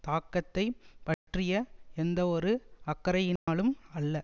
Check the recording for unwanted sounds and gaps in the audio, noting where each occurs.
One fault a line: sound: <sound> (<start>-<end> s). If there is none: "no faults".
sound: dropout (1.1-1.3 s)
sound: dropout (3.4-3.5 s)